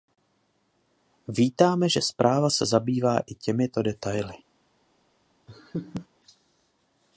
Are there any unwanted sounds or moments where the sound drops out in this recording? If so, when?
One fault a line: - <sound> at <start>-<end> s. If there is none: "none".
- laugh at 5.5-6.1 s